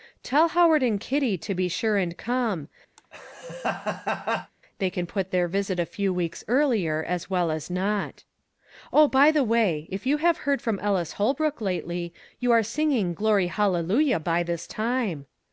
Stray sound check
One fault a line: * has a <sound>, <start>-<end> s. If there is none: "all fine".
* has a laugh, 3.0-4.5 s